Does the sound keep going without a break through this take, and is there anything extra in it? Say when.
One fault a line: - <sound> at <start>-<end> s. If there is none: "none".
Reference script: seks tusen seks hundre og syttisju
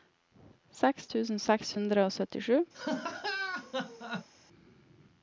- laugh at 2.7-4.3 s